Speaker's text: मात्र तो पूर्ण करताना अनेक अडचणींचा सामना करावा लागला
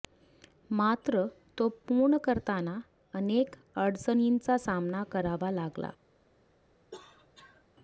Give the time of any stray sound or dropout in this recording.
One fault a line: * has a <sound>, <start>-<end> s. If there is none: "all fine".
* has a cough, 6.9-7.6 s